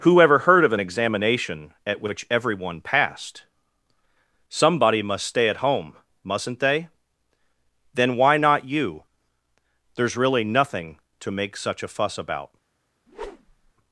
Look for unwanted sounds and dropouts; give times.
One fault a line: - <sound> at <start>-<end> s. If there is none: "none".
- whoosh at 13.1-13.7 s